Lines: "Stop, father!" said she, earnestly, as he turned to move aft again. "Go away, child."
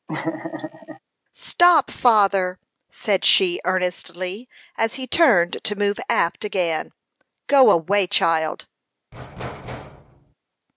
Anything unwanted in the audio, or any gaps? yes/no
yes